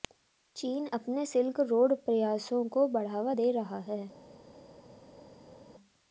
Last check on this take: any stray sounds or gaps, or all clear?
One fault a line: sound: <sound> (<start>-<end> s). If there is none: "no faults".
no faults